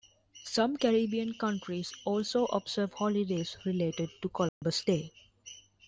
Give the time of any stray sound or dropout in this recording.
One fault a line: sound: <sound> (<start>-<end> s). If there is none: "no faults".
sound: dropout (4.5-4.6 s)